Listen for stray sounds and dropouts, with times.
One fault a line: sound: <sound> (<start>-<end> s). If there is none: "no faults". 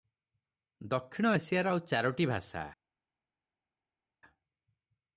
no faults